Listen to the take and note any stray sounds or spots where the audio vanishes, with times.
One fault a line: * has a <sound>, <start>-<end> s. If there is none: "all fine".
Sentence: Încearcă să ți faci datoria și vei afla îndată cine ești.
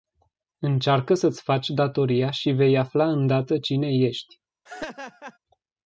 * has a laugh, 4.7-5.4 s